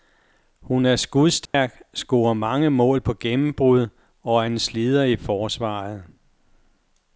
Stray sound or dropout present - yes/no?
yes